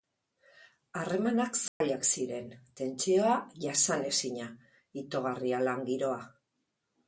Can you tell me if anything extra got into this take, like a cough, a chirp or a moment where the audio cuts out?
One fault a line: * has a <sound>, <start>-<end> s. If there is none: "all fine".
* has a dropout, 1.7-1.8 s